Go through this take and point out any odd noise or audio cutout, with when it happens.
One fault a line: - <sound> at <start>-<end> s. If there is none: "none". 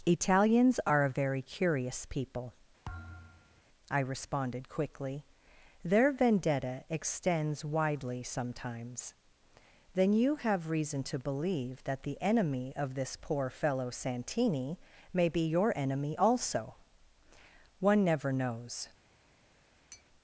- thud at 2.8-3.6 s
- tap at 19.9-20.0 s